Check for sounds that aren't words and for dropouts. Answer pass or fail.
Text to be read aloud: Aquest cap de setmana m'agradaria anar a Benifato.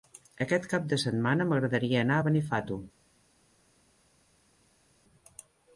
pass